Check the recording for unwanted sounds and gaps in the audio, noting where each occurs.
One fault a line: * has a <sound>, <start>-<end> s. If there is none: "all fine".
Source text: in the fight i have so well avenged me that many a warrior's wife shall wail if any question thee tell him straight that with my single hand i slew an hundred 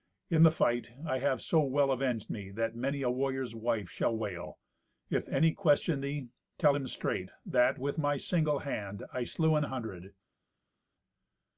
all fine